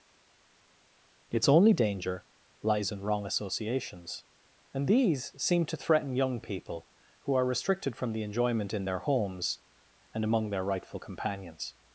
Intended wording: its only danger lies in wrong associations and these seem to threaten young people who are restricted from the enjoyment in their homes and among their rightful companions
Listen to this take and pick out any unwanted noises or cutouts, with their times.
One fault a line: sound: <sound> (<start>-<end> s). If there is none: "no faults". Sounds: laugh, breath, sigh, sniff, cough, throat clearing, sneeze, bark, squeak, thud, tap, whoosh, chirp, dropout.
no faults